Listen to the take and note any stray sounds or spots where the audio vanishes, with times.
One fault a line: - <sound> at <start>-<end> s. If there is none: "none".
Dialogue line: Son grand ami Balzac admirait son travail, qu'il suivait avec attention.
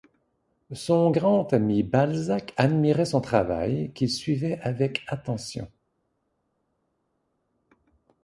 none